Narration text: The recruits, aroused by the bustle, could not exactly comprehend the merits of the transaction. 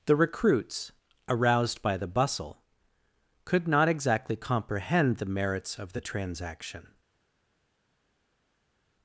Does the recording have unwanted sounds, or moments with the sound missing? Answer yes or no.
no